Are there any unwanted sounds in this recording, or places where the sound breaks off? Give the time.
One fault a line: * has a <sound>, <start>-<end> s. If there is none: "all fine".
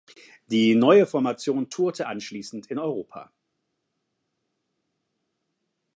all fine